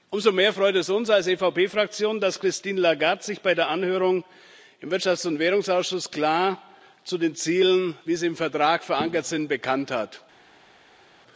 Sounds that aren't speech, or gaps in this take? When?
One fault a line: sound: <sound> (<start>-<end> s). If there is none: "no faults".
no faults